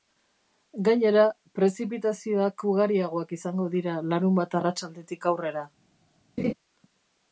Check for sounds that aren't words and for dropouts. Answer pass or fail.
fail